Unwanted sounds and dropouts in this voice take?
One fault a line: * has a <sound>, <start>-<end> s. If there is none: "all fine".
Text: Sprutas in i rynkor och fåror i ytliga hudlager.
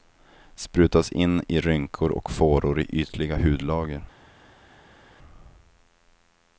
all fine